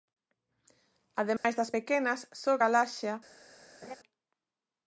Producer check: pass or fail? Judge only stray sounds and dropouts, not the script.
fail